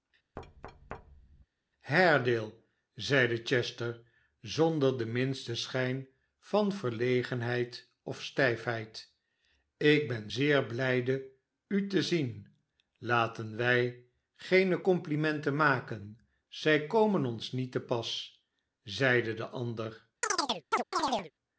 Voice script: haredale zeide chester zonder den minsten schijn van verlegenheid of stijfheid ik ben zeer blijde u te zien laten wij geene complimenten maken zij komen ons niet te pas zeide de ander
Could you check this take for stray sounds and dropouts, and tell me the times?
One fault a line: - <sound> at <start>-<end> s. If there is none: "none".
- thud at 0.4-1.5 s
- chirp at 20.2-21.3 s